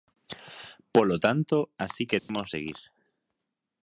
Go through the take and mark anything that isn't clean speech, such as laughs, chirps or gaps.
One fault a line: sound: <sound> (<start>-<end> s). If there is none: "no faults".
sound: dropout (2.2-2.3 s)